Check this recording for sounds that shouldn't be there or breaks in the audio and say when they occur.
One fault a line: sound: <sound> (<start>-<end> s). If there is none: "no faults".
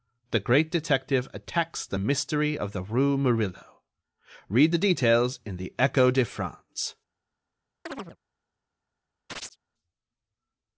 sound: chirp (7.9-8.2 s)
sound: chirp (9.3-9.6 s)